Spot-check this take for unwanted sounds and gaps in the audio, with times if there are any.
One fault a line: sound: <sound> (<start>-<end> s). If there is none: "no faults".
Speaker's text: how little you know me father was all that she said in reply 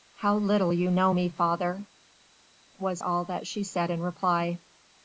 no faults